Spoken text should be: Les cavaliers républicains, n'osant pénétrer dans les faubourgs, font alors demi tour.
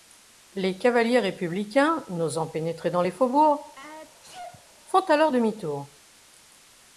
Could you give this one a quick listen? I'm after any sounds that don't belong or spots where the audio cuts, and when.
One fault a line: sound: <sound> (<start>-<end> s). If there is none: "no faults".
sound: sneeze (3.8-4.7 s)